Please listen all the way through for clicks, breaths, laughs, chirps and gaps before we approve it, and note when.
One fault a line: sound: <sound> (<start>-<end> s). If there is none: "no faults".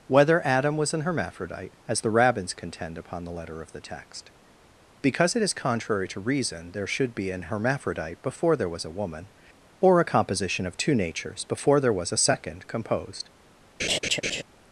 sound: laugh (13.8-14.4 s)